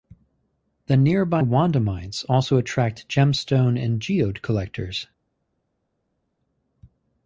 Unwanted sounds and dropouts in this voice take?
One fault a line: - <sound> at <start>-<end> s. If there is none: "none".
none